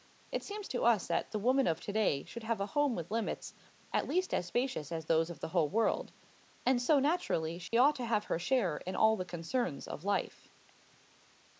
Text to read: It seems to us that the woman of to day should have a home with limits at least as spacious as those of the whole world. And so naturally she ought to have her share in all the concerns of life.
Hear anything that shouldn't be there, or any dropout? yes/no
yes